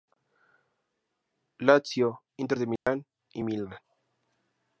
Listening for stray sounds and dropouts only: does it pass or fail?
fail